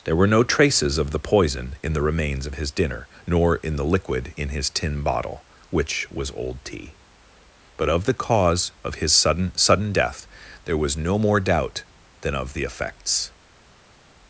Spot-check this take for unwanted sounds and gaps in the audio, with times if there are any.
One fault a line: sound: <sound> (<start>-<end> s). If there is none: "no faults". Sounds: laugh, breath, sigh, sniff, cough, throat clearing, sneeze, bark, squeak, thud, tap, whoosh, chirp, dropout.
no faults